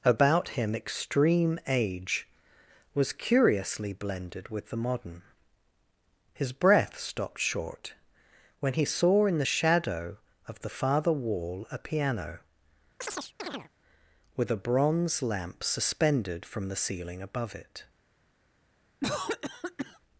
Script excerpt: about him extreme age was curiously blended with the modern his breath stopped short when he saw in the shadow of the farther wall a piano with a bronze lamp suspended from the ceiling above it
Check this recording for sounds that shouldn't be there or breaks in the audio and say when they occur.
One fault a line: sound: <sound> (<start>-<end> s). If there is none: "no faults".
sound: chirp (13.0-13.7 s)
sound: cough (19.0-20.0 s)